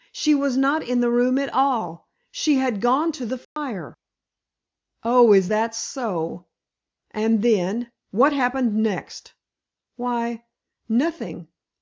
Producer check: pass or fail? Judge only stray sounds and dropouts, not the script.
fail